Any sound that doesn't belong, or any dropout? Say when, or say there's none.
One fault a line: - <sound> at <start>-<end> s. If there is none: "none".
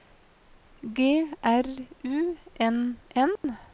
- dropout at 3.4-3.4 s